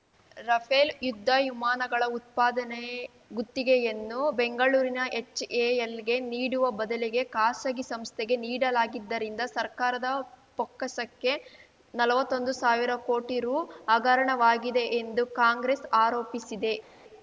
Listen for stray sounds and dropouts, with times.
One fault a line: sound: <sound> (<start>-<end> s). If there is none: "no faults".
no faults